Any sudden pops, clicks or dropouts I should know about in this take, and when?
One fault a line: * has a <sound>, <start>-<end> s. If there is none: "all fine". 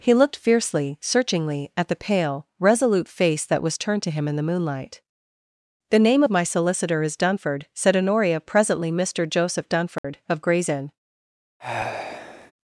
* has a dropout, 10.0-10.0 s
* has a sigh, 11.6-12.5 s